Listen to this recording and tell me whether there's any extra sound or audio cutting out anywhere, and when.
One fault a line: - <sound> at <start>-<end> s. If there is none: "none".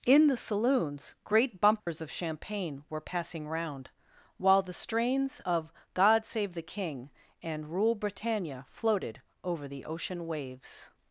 - dropout at 1.8-1.9 s